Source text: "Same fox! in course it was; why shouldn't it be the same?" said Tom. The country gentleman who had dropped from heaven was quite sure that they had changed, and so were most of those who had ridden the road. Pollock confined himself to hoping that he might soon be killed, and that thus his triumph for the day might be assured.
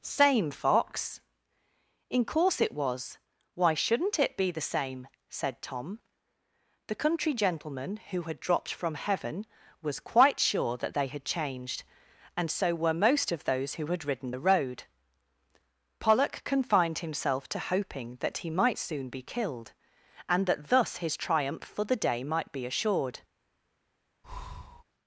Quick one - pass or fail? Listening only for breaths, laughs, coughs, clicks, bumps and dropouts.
fail